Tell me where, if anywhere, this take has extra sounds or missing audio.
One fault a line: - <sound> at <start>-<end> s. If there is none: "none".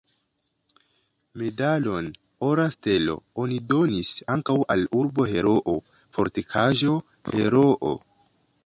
none